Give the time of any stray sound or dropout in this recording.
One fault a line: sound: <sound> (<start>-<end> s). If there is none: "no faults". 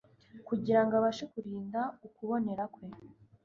no faults